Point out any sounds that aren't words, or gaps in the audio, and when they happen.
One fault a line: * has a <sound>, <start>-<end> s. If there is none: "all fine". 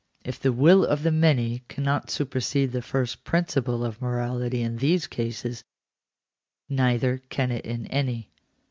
all fine